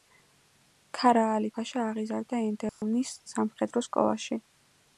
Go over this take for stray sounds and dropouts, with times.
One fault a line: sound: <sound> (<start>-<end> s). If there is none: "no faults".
sound: dropout (2.7-2.8 s)